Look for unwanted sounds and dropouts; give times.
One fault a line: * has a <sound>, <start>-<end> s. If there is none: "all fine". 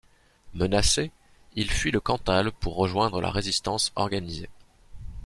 all fine